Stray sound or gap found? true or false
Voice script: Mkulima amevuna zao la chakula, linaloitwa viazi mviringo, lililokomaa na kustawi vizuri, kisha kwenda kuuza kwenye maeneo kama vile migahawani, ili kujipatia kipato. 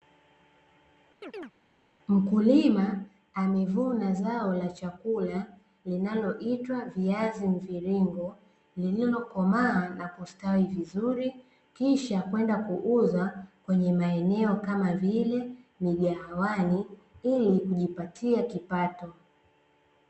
true